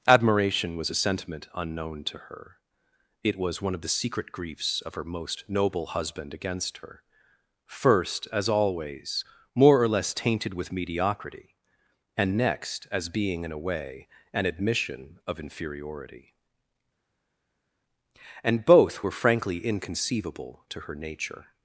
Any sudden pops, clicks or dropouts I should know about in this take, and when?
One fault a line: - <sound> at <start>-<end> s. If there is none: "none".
none